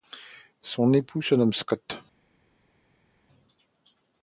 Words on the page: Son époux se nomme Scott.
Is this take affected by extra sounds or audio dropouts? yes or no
no